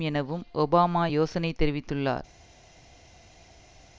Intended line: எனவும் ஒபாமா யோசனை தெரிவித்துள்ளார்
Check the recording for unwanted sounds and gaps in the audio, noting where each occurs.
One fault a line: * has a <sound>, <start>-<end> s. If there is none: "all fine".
all fine